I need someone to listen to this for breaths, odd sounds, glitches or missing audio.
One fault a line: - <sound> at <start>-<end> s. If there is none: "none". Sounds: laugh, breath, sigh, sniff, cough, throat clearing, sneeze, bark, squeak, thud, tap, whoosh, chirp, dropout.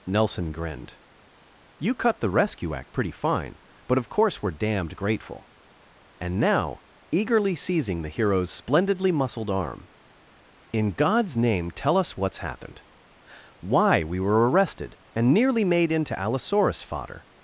none